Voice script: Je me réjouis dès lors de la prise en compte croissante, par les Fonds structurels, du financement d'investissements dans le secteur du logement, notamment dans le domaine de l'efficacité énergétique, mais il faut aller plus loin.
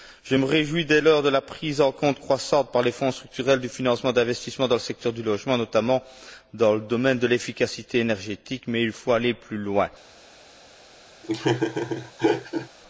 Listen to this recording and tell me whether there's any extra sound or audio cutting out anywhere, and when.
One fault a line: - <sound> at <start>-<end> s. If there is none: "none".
- laugh at 11.2-12.7 s